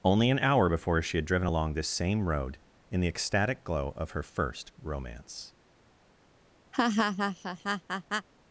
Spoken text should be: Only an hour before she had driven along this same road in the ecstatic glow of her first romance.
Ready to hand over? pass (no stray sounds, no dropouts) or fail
fail